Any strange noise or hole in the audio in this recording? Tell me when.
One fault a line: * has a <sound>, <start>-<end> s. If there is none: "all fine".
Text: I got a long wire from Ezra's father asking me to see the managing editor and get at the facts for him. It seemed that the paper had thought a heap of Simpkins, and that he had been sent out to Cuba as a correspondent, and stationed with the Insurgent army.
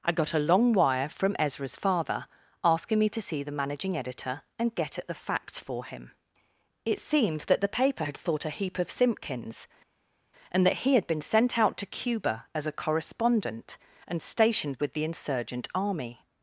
all fine